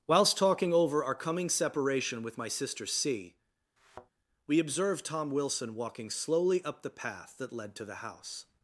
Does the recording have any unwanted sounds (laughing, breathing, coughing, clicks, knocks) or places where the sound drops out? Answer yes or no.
yes